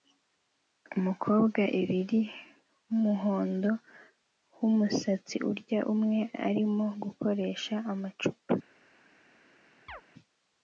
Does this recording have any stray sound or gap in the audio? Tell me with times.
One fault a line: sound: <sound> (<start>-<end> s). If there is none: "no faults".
sound: chirp (9.9-10.0 s)